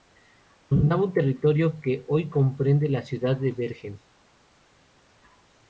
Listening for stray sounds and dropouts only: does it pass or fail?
pass